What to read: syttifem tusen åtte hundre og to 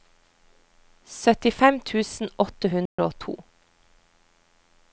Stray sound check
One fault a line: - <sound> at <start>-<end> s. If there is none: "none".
- dropout at 2.9-3.0 s